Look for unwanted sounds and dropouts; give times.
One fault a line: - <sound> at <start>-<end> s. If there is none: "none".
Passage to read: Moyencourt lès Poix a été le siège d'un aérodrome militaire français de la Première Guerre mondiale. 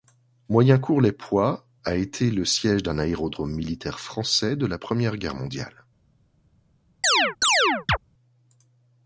- chirp at 7.0-8.0 s